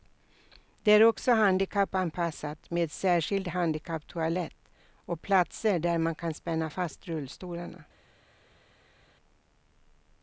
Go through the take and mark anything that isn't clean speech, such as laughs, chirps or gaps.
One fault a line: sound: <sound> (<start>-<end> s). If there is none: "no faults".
no faults